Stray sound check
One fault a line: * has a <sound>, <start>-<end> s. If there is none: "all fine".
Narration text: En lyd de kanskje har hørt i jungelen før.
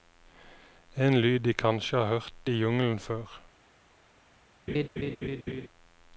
* has a laugh, 4.7-5.7 s